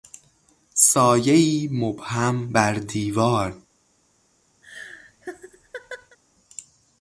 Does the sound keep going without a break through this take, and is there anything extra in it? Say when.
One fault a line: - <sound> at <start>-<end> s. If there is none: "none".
- laugh at 4.6-6.2 s